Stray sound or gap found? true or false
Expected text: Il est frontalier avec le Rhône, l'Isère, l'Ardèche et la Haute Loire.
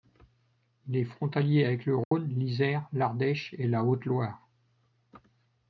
true